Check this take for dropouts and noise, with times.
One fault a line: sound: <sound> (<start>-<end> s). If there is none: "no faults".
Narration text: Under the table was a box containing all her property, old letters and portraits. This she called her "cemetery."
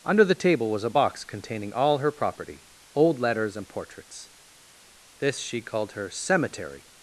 no faults